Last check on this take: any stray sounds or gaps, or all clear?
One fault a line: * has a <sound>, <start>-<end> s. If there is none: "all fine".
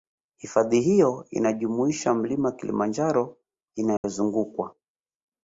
* has a dropout, 4.0-4.0 s